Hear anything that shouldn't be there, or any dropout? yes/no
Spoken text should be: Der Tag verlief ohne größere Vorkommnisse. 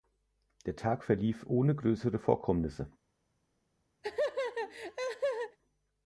yes